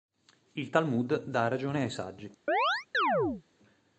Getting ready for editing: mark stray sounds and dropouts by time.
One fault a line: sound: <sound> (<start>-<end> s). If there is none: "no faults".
sound: chirp (2.5-3.4 s)